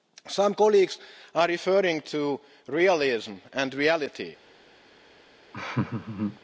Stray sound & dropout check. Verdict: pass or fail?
fail